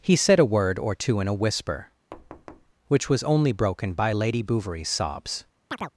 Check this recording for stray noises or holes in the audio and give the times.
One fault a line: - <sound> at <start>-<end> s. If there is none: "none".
- thud at 2.1-2.7 s
- chirp at 5.7-5.9 s